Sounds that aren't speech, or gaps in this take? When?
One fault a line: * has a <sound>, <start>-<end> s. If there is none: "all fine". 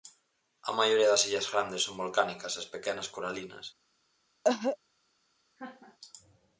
* has a cough, 4.4-4.8 s
* has a laugh, 5.6-6.0 s